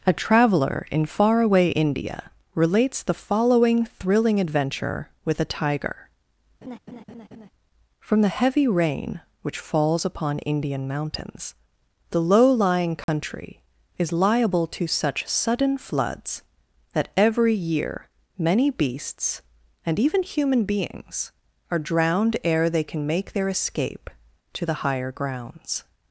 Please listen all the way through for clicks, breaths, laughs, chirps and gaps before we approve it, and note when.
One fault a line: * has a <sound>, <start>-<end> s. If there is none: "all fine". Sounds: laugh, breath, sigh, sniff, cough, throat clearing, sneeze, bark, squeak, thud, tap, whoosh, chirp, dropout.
* has a laugh, 6.6-7.5 s
* has a dropout, 13.0-13.1 s